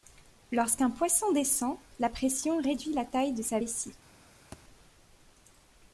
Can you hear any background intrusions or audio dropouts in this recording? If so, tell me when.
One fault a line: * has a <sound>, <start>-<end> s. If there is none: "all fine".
* has a thud, 4.5-4.6 s